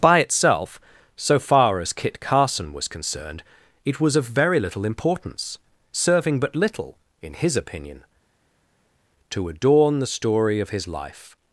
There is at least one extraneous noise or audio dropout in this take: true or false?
false